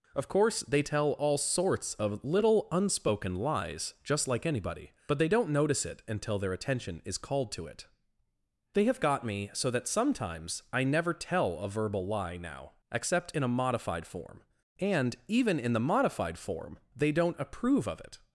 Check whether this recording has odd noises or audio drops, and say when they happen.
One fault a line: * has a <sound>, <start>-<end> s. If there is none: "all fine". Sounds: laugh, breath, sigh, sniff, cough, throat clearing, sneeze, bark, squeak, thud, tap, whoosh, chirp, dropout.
all fine